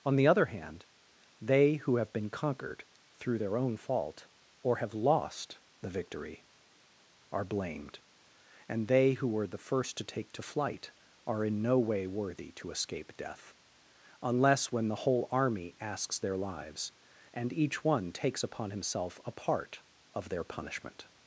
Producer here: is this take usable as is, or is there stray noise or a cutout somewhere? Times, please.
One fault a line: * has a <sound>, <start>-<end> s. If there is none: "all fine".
all fine